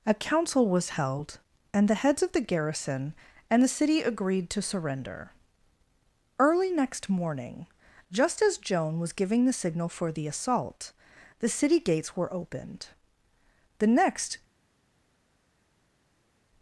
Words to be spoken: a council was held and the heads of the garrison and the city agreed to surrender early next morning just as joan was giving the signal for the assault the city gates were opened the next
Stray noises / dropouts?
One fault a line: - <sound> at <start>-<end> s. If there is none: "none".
none